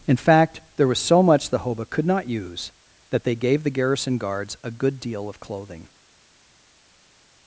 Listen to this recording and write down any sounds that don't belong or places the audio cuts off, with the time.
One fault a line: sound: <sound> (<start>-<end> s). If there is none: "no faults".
no faults